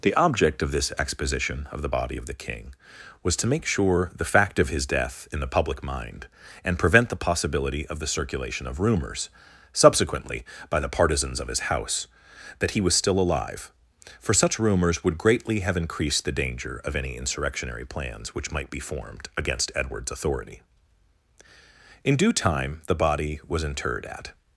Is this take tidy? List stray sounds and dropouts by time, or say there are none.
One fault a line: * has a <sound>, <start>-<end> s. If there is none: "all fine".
all fine